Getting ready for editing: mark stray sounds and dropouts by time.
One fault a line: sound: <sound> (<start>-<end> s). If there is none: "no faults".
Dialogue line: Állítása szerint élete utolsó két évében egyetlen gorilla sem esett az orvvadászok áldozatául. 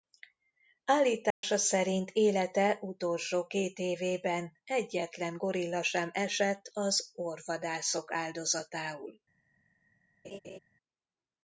sound: dropout (1.3-1.4 s)
sound: laugh (10.2-10.6 s)